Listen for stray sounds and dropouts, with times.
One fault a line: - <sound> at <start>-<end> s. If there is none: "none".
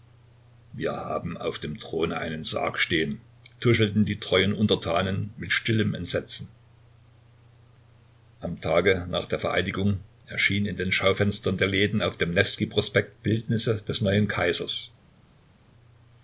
none